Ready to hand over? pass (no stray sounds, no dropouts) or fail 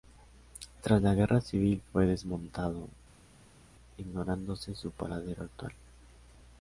pass